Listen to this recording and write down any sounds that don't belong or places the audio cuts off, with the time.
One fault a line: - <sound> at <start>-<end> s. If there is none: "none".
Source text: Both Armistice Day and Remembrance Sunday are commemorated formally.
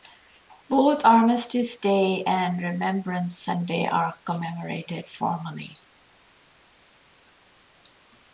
none